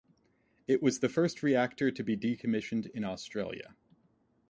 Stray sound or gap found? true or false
false